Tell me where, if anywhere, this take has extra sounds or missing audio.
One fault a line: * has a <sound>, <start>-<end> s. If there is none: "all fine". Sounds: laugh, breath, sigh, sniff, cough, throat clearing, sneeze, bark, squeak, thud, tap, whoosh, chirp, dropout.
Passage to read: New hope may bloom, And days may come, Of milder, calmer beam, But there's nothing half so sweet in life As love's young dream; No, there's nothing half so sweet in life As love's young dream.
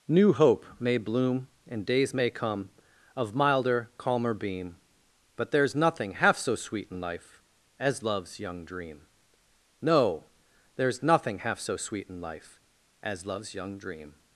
all fine